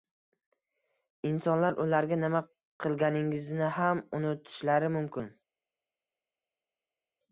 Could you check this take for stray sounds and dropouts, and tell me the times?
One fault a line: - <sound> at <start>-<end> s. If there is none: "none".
none